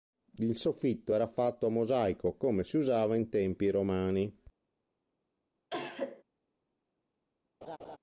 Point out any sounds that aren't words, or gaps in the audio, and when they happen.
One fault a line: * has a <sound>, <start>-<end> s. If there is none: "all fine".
* has a cough, 5.7-6.2 s
* has a laugh, 7.6-8.0 s